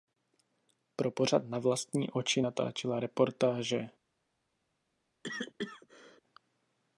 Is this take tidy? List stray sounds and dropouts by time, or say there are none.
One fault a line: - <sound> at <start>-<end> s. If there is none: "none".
- cough at 5.2-6.2 s